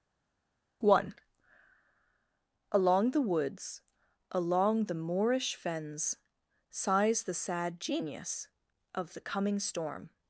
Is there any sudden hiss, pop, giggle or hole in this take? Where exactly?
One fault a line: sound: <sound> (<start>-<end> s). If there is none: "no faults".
no faults